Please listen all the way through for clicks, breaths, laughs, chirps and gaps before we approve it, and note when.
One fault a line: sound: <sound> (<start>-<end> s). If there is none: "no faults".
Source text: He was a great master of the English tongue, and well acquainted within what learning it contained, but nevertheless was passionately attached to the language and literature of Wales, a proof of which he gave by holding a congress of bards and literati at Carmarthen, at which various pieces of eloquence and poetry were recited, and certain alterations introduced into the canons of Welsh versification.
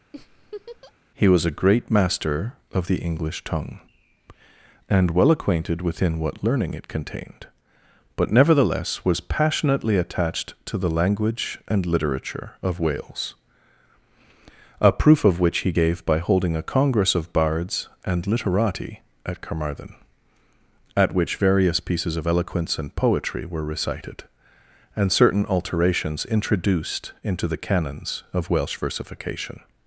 sound: laugh (0.1-0.9 s)